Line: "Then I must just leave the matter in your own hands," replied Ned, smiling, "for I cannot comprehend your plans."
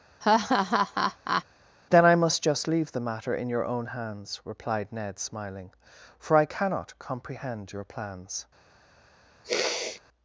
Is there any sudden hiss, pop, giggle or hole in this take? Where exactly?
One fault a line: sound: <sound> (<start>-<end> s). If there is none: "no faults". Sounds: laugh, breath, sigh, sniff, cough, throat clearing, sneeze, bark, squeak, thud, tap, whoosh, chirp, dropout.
sound: laugh (0.2-1.4 s)
sound: sniff (9.4-10.0 s)